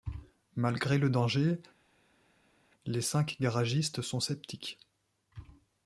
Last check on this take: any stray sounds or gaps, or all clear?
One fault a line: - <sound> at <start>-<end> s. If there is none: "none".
none